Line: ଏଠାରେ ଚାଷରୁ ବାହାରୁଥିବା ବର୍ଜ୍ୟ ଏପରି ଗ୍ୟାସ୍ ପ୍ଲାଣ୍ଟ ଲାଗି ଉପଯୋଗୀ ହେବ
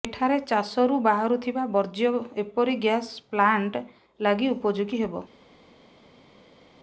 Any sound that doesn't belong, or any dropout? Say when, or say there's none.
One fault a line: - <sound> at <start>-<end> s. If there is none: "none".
none